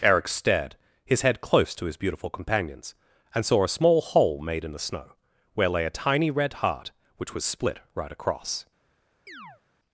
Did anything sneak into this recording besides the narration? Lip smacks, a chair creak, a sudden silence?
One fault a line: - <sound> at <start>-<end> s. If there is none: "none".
- chirp at 9.3-9.6 s